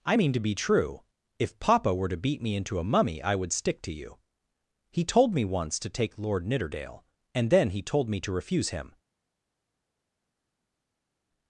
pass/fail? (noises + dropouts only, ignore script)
pass